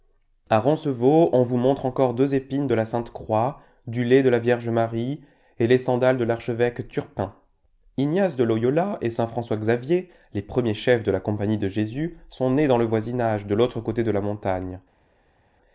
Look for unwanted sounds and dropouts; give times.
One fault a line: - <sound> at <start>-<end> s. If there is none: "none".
none